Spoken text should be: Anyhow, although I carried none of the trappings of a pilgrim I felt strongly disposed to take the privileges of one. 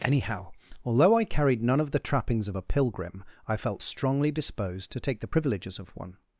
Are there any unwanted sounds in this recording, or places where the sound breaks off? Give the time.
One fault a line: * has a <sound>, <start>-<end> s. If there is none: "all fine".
all fine